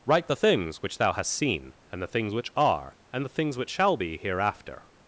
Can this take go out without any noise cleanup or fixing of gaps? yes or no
yes